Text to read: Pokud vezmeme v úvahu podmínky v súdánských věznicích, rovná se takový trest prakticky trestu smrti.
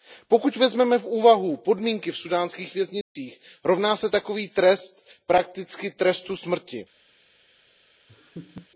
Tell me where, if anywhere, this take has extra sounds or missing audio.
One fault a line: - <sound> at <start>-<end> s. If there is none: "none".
- dropout at 3.0-3.2 s
- laugh at 8.1-8.7 s